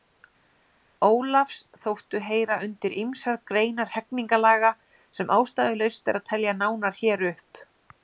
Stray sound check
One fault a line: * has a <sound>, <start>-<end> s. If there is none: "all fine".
all fine